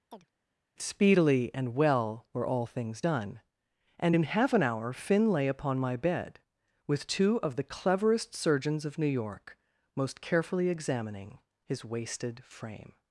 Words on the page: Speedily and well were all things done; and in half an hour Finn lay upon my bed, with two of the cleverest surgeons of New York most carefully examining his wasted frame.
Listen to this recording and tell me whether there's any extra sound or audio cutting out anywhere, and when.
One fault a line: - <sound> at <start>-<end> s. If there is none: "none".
- chirp at 0.1-0.3 s